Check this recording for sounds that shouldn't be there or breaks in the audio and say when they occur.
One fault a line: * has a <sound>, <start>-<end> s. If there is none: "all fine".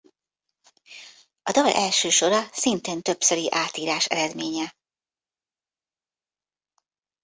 all fine